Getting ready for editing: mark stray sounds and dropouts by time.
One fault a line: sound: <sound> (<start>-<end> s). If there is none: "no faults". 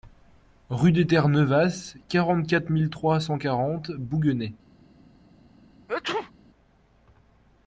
sound: sneeze (5.9-6.3 s)